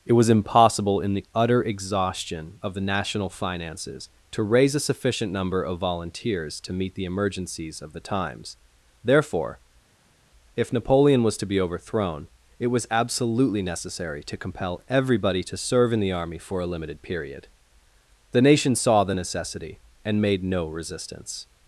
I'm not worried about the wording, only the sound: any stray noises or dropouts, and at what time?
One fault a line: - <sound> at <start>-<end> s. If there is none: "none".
none